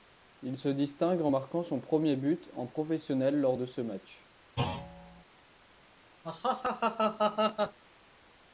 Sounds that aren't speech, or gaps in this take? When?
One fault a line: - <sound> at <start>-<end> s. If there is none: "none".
- thud at 4.6-5.2 s
- laugh at 6.2-7.8 s